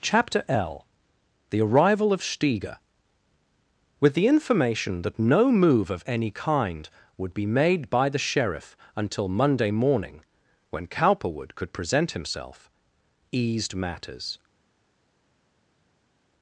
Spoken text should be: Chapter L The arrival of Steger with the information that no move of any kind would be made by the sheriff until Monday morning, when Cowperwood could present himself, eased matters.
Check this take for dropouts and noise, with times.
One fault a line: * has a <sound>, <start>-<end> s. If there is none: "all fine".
all fine